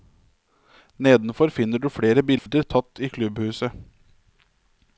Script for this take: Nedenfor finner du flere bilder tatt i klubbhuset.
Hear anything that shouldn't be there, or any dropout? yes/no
yes